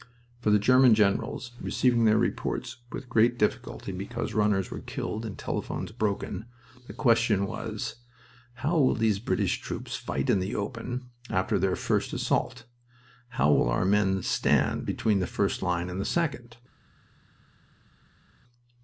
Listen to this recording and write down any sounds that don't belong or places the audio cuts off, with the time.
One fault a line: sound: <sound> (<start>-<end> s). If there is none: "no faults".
no faults